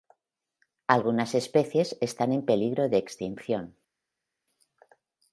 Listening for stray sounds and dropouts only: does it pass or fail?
pass